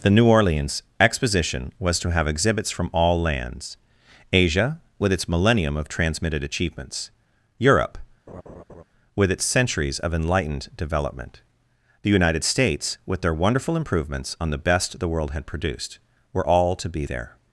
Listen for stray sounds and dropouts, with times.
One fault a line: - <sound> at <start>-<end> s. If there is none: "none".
- laugh at 8.3-8.8 s